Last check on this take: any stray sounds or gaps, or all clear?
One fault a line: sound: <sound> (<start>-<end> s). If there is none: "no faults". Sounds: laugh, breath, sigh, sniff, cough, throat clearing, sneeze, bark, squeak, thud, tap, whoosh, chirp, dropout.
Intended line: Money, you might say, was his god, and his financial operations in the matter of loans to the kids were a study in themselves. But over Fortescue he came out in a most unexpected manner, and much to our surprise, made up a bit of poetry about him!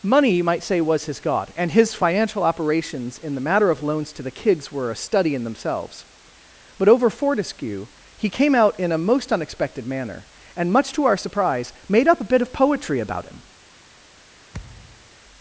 sound: thud (14.5-15.1 s)